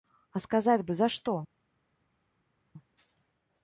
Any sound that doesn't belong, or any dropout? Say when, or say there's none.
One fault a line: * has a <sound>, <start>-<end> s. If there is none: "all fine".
all fine